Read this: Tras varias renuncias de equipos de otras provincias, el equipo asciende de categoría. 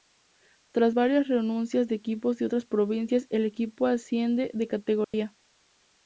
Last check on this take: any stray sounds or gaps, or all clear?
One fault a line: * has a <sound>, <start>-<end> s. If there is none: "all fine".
* has a dropout, 5.0-5.1 s